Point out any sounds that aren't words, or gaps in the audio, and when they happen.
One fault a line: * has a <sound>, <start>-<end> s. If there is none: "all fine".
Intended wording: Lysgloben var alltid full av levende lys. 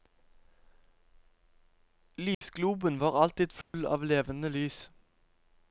* has a dropout, 2.3-2.4 s
* has a dropout, 3.6-3.7 s